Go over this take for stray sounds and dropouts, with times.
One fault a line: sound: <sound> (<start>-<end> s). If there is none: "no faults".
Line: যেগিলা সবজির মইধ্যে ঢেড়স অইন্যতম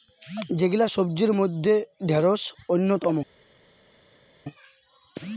no faults